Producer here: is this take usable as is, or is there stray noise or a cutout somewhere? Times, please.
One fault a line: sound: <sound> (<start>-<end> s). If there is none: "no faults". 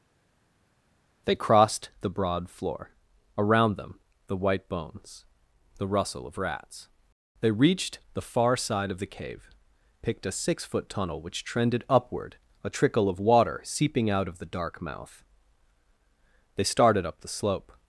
no faults